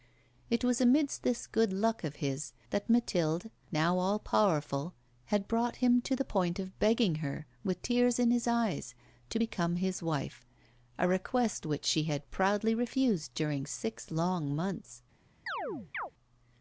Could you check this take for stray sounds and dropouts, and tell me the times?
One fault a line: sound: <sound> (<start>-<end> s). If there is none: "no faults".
sound: chirp (15.5-16.1 s)